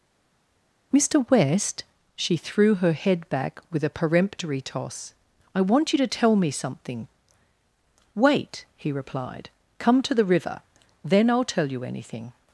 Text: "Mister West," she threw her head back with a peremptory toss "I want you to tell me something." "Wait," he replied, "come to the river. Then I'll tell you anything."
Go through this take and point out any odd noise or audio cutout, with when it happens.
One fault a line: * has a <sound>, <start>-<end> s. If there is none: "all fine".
all fine